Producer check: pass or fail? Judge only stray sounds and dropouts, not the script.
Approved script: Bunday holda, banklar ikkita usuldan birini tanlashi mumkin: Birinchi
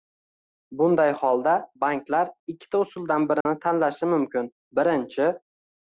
fail